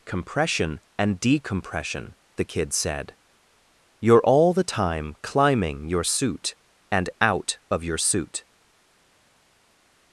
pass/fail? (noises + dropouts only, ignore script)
pass